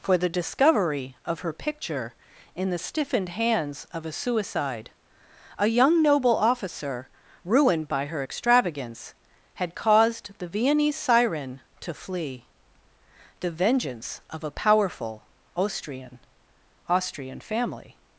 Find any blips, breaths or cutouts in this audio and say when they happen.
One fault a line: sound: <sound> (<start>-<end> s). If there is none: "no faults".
no faults